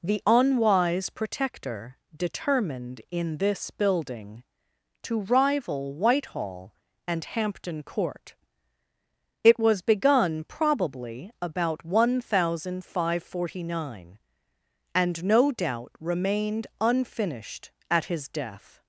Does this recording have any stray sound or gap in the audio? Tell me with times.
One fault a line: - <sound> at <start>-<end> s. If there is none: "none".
none